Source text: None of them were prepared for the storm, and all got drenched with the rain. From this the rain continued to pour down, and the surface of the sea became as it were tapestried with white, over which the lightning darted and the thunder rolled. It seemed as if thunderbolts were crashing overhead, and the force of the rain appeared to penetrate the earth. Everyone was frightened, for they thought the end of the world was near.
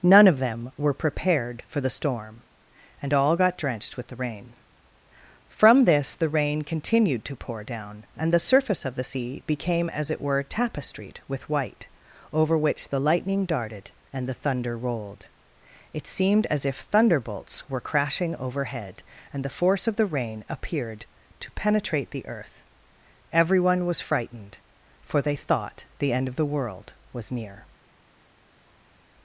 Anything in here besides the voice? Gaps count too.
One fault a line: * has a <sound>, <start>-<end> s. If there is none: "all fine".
all fine